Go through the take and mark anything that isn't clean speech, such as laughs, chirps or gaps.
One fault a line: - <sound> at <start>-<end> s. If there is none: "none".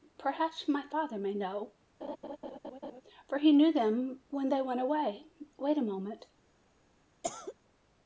- laugh at 2.0-3.0 s
- cough at 7.2-7.5 s